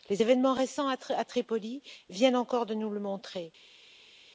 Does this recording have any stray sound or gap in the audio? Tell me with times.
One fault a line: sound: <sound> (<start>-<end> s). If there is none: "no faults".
no faults